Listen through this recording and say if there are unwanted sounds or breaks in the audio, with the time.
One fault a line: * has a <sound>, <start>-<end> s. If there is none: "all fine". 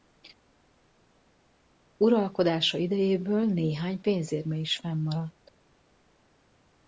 all fine